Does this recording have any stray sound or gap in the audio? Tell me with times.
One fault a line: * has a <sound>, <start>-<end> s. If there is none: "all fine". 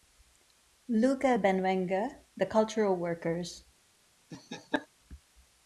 * has a laugh, 4.3-4.9 s